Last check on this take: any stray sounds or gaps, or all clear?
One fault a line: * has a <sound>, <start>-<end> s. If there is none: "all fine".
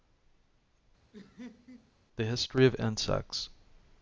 * has a laugh, 1.1-1.9 s